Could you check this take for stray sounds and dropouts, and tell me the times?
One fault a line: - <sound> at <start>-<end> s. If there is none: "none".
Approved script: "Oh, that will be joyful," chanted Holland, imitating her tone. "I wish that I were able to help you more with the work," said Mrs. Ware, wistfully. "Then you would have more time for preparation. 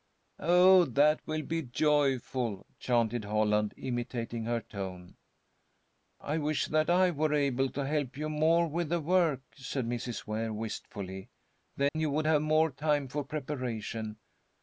- dropout at 11.9-12.0 s